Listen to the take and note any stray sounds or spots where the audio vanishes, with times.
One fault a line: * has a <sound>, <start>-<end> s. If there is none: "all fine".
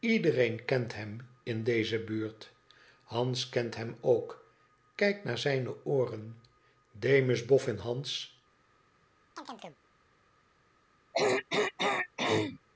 * has a chirp, 9.4-9.8 s
* has a throat clearing, 11.1-12.6 s